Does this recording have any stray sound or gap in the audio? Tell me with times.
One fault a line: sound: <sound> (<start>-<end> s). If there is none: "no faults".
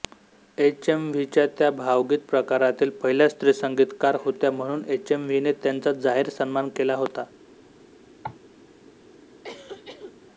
sound: cough (8.2-8.4 s)
sound: cough (9.4-10.2 s)